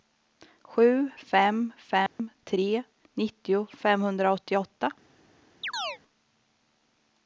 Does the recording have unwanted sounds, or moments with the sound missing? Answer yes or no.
yes